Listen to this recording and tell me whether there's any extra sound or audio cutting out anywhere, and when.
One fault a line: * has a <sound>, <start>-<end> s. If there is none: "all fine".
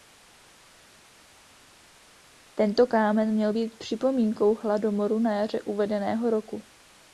all fine